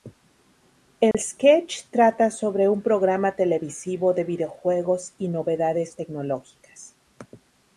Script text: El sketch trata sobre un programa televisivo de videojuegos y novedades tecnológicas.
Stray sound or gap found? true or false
true